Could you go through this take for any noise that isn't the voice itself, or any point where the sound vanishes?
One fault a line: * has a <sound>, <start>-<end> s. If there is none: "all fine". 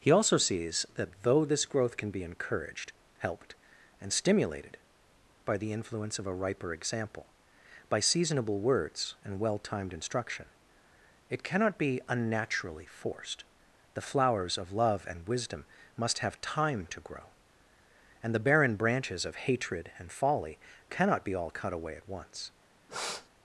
* has a sniff, 22.9-23.3 s